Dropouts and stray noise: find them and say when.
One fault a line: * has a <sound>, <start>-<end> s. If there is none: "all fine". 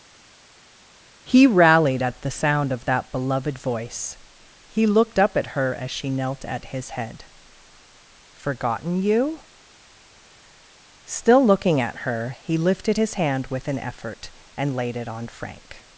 all fine